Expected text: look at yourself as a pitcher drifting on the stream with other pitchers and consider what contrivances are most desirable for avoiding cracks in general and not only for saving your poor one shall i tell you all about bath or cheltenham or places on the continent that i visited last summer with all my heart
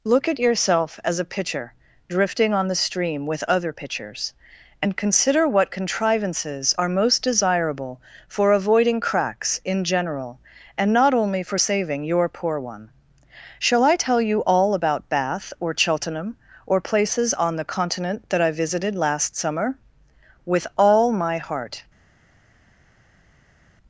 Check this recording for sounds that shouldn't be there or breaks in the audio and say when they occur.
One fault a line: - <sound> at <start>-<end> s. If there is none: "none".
none